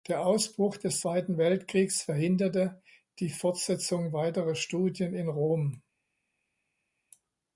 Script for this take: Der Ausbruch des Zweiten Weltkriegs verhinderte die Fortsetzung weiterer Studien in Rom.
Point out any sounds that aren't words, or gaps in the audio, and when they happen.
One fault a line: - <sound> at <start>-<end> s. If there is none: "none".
none